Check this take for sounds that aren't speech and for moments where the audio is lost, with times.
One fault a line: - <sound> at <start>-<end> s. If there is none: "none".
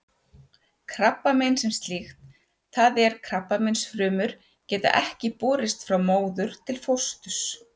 none